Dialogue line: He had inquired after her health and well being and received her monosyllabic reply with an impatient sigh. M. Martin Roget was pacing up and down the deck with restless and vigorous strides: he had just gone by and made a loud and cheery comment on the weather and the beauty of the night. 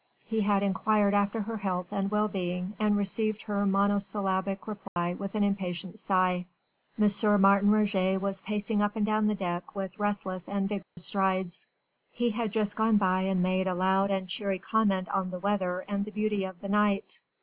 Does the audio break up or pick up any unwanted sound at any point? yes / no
yes